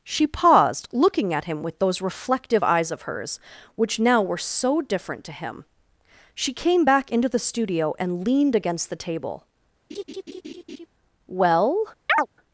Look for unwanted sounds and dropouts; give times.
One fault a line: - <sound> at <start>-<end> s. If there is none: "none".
- laugh at 9.9-10.9 s
- chirp at 12.1-12.3 s